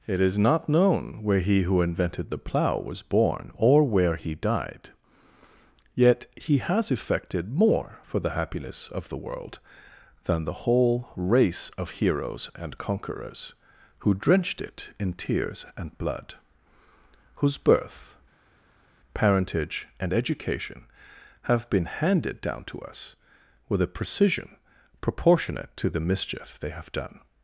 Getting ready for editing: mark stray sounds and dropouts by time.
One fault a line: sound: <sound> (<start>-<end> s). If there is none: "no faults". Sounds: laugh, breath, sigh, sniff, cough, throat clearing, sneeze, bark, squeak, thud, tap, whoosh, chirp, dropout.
no faults